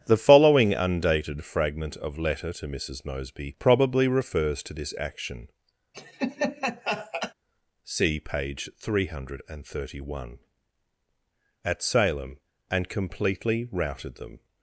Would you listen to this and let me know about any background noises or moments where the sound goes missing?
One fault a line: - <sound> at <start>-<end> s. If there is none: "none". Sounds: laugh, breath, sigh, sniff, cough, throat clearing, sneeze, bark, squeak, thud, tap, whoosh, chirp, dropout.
- laugh at 5.9-7.3 s